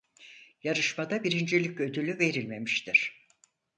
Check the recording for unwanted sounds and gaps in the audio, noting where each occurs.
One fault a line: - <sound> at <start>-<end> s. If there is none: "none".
none